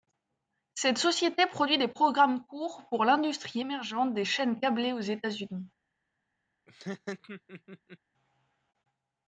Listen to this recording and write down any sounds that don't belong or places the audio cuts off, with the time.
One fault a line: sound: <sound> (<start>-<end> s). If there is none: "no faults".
sound: laugh (6.7-8.0 s)